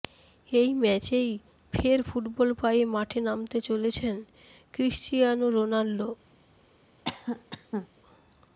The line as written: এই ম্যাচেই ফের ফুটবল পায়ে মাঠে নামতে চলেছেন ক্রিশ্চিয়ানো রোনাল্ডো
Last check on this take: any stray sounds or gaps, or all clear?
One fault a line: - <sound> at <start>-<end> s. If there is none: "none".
- cough at 7.0-7.9 s